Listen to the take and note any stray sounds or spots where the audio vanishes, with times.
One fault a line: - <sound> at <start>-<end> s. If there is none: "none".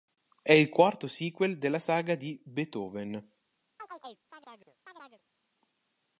- chirp at 3.8-5.2 s